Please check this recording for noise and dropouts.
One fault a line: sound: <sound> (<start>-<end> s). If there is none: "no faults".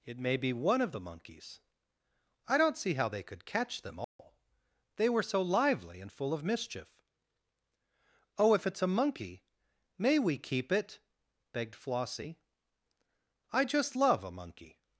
sound: dropout (4.0-4.2 s)